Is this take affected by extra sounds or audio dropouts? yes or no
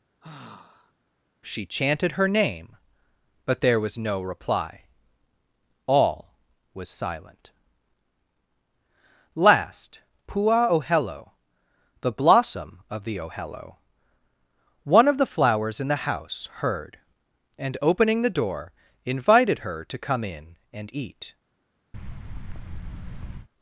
yes